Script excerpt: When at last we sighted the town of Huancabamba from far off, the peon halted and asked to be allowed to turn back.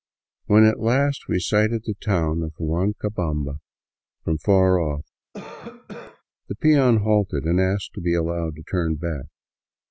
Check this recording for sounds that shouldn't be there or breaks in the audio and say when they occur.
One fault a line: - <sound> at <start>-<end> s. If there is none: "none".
- cough at 5.3-6.2 s